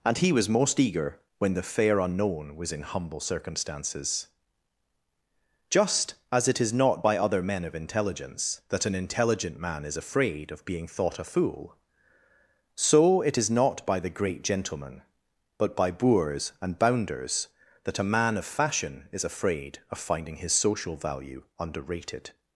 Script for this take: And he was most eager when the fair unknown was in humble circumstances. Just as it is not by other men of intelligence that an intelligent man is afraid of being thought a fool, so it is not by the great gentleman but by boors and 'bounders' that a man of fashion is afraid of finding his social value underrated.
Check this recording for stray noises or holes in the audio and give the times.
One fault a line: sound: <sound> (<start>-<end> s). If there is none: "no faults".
no faults